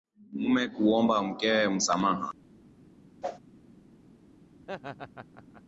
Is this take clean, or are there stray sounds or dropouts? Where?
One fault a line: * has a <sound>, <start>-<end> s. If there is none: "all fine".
* has a whoosh, 3.2-3.4 s
* has a laugh, 4.6-5.6 s